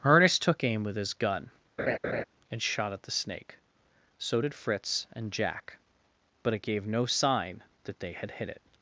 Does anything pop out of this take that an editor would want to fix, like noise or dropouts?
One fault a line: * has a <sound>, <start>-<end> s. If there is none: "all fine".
* has a laugh, 1.8-2.2 s